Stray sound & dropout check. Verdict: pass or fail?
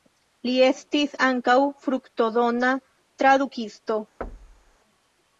fail